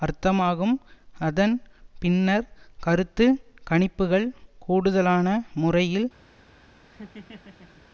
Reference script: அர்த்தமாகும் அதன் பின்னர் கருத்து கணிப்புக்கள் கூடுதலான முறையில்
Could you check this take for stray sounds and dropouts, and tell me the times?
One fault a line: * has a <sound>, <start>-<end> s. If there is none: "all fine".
* has a laugh, 6.9-7.8 s